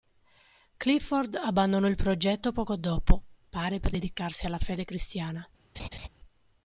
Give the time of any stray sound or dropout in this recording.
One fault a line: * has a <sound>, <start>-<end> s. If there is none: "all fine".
* has a laugh, 5.7-6.1 s